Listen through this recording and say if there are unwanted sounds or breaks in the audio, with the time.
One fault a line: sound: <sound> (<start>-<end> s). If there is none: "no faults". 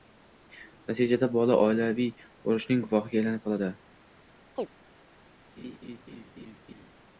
sound: chirp (4.6-4.7 s)
sound: laugh (5.6-6.9 s)